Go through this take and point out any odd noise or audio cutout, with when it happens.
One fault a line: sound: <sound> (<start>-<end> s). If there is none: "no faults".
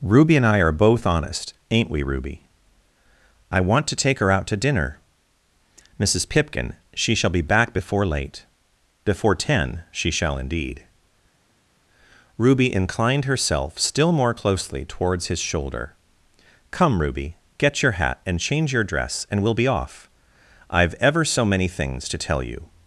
no faults